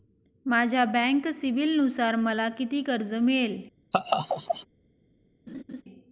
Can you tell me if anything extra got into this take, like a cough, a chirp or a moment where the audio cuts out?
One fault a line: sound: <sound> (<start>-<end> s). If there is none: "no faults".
sound: laugh (3.9-4.7 s)
sound: laugh (5.5-5.8 s)